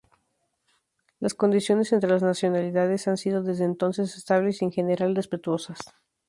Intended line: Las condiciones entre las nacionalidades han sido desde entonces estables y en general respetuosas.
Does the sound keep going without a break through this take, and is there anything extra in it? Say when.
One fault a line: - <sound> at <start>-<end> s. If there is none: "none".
none